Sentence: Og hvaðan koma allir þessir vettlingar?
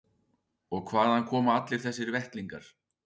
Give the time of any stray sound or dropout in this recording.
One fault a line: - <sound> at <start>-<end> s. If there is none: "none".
none